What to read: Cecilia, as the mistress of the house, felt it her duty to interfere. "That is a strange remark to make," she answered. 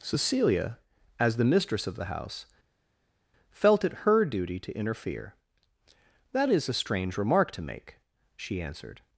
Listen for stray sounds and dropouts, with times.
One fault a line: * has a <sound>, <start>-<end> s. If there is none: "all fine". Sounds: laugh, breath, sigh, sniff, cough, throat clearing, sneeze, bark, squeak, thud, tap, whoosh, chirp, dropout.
all fine